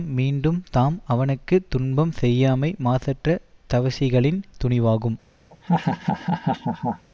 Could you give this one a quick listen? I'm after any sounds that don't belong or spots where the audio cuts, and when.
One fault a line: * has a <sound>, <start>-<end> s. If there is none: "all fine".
* has a laugh, 5.5-7.1 s